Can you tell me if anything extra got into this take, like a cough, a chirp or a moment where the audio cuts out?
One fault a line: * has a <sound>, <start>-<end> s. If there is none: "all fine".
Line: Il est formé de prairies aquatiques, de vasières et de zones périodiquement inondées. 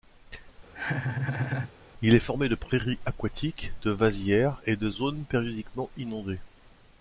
* has a laugh, 0.7-1.7 s